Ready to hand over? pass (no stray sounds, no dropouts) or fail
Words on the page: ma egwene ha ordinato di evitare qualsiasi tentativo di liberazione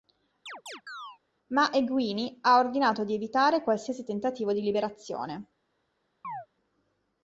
fail